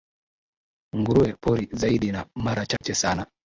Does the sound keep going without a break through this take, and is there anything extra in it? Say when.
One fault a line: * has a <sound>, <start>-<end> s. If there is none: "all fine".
* has a dropout, 2.8-2.8 s